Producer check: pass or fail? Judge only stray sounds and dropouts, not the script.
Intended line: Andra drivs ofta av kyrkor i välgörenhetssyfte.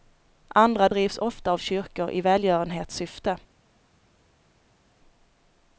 pass